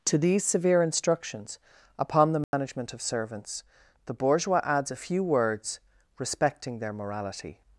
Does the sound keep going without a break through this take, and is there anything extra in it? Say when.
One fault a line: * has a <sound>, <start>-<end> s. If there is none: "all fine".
* has a dropout, 2.4-2.5 s